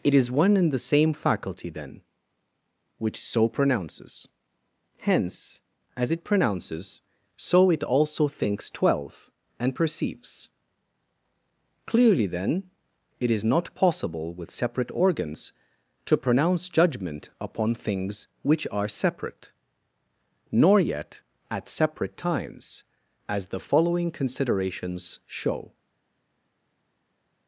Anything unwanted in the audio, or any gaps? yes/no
no